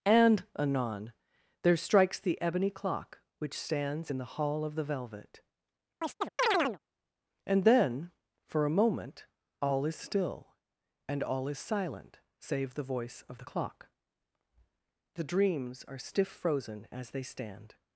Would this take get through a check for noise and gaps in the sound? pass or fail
fail